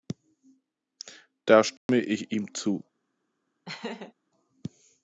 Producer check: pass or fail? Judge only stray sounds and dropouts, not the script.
fail